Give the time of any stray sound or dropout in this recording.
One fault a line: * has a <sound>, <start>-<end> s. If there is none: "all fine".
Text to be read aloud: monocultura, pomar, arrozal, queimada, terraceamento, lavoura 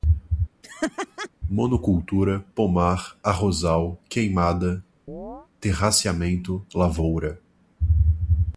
* has a laugh, 0.6-1.3 s
* has a chirp, 5.1-5.5 s